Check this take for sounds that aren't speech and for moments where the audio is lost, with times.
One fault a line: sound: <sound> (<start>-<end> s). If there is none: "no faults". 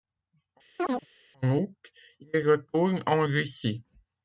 sound: chirp (0.8-1.1 s)